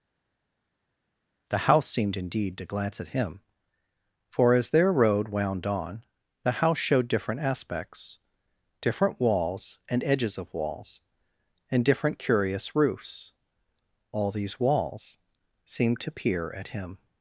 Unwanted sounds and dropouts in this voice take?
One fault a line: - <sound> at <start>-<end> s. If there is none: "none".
none